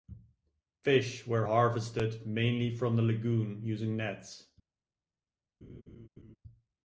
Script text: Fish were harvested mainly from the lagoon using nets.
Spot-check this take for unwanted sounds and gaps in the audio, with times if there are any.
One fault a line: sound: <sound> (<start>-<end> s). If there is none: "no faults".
sound: laugh (5.6-6.4 s)